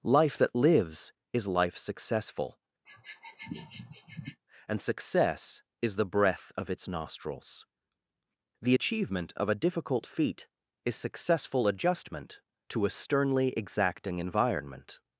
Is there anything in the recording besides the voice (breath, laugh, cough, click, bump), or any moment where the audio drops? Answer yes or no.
yes